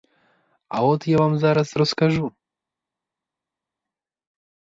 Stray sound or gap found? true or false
false